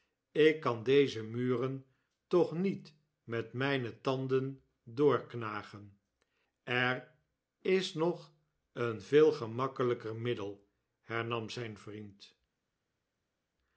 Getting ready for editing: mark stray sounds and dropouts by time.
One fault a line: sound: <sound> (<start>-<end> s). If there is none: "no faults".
no faults